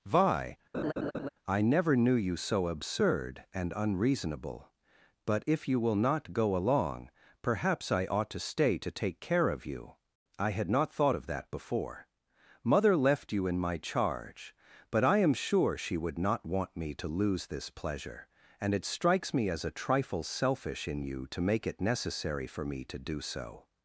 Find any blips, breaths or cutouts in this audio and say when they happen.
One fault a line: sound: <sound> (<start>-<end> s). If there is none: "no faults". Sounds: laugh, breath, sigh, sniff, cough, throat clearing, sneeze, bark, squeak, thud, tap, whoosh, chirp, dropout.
sound: laugh (0.7-1.3 s)